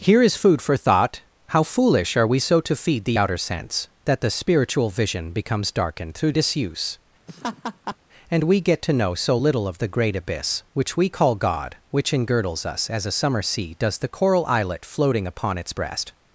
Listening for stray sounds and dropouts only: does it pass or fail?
fail